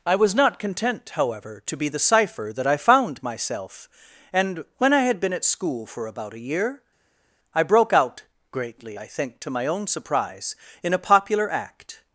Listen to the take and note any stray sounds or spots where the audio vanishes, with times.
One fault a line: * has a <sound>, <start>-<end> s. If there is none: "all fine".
all fine